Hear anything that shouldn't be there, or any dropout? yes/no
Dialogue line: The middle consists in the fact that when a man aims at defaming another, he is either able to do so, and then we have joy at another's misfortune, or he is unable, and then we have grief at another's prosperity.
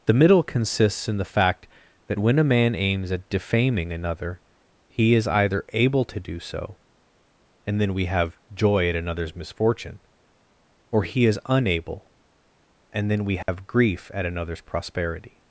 yes